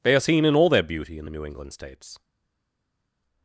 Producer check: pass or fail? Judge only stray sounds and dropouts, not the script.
pass